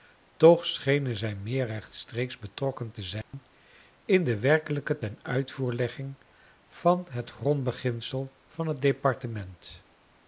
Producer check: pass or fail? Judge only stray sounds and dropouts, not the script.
fail